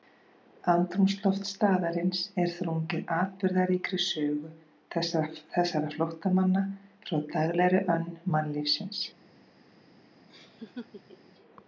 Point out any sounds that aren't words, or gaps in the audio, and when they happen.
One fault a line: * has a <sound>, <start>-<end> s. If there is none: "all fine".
* has a laugh, 10.3-11.3 s